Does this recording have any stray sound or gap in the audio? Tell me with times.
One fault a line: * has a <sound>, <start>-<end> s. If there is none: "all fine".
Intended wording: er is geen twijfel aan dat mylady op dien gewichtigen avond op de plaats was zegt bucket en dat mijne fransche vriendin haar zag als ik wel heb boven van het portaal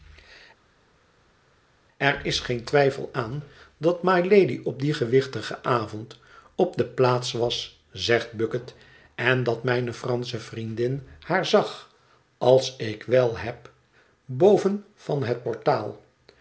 all fine